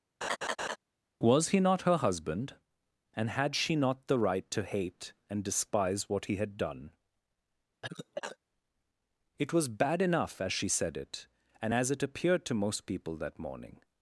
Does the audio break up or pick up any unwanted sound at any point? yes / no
yes